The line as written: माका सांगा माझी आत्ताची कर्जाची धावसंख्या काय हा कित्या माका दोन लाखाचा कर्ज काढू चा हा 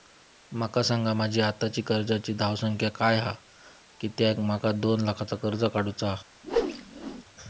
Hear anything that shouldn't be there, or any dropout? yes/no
yes